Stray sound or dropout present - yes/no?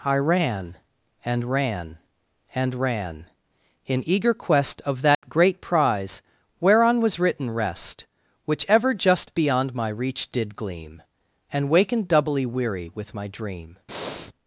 yes